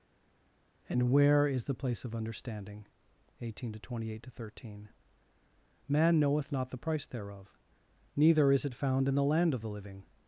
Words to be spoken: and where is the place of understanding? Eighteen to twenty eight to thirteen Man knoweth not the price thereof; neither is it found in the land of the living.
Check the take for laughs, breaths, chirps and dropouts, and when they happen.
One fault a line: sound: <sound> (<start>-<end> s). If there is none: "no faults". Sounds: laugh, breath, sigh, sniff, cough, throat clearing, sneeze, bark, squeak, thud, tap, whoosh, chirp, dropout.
no faults